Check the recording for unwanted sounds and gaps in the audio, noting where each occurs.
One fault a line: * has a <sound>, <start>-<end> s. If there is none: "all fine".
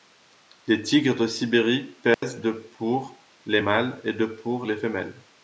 * has a dropout, 2.1-2.2 s